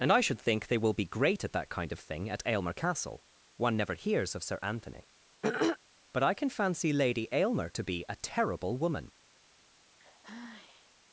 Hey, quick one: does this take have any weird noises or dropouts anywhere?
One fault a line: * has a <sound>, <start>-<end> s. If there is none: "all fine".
* has a throat clearing, 5.4-5.8 s
* has a sigh, 10.0-10.9 s